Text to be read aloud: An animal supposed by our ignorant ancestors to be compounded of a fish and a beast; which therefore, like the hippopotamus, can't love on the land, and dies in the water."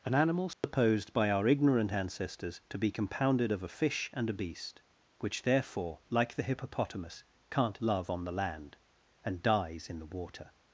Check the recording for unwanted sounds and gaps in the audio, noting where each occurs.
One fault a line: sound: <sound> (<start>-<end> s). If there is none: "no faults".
sound: dropout (0.5-0.6 s)